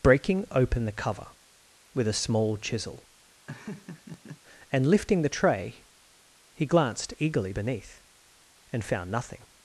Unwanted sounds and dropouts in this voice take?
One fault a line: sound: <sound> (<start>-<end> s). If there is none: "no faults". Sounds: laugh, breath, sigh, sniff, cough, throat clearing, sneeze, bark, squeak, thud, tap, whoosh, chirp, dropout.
sound: laugh (3.5-4.4 s)